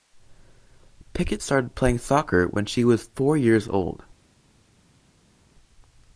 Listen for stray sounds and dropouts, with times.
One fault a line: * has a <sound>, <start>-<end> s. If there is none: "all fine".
all fine